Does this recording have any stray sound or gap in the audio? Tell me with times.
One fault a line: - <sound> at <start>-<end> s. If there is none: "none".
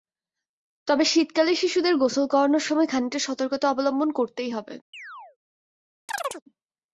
- chirp at 4.9-5.4 s
- chirp at 6.1-6.4 s